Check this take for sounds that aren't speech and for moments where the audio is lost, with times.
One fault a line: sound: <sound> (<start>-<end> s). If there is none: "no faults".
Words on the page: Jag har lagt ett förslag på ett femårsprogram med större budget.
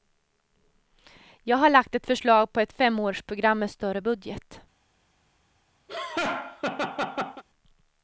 sound: laugh (5.9-7.4 s)